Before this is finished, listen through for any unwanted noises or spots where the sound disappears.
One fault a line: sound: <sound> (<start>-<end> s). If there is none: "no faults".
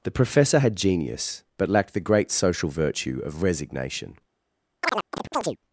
sound: chirp (4.8-5.6 s)